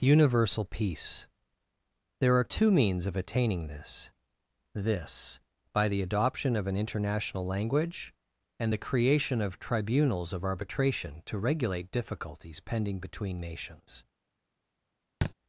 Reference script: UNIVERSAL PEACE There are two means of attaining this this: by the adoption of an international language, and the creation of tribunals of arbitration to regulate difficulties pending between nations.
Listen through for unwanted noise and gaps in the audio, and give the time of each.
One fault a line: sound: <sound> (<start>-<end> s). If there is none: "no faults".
sound: thud (15.2-15.3 s)